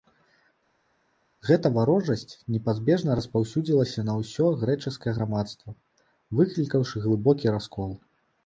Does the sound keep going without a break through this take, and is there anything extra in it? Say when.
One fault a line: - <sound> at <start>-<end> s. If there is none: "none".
none